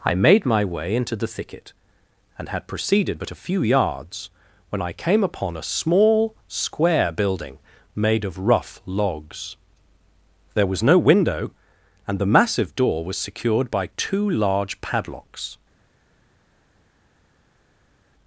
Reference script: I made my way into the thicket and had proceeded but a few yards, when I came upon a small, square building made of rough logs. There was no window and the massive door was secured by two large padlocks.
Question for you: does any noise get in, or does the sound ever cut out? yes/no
no